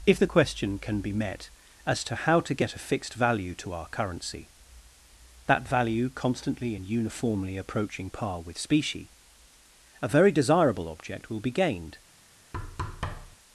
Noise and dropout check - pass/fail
fail